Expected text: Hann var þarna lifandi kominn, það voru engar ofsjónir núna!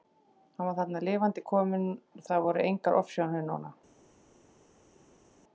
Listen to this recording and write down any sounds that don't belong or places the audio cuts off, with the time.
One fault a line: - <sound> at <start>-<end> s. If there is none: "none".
none